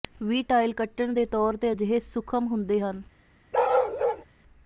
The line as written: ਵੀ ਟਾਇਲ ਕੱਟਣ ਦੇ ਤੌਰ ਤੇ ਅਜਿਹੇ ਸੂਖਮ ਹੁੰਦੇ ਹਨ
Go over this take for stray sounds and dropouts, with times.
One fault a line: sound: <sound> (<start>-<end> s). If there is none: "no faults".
sound: bark (3.5-4.2 s)